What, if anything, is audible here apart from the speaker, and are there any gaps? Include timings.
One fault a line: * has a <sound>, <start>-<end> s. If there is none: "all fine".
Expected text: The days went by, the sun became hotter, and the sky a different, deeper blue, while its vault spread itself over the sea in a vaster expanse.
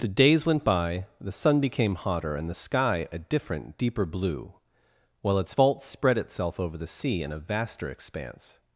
all fine